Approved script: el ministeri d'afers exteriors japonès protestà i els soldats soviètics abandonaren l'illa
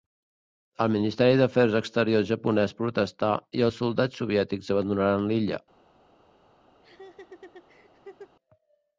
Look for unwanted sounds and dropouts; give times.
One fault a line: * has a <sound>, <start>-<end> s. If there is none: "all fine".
* has a laugh, 6.8-8.4 s